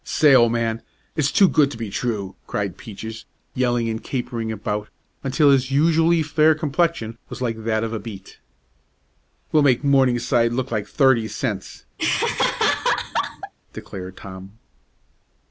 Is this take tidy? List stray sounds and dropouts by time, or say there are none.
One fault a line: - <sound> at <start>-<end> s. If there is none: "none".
- laugh at 12.0-13.5 s